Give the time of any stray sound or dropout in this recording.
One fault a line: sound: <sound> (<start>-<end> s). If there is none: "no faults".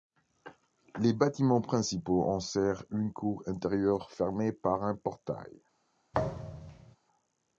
sound: thud (6.1-7.0 s)